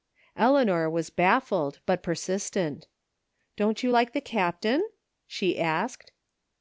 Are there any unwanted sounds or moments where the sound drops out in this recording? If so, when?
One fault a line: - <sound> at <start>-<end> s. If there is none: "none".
none